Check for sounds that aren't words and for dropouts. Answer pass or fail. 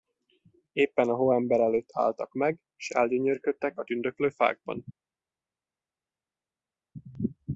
pass